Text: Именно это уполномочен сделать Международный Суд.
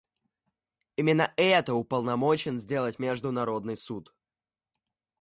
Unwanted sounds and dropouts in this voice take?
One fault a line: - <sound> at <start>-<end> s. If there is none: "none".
none